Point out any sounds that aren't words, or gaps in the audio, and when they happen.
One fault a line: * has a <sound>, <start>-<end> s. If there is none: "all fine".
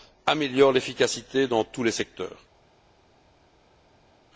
all fine